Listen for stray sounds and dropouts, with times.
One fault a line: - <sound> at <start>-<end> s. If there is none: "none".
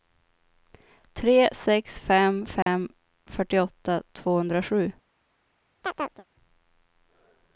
- dropout at 2.6-2.7 s
- chirp at 5.8-6.2 s